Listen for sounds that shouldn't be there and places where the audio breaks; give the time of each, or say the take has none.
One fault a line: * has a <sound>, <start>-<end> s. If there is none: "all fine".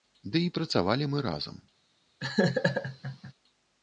* has a laugh, 2.2-3.3 s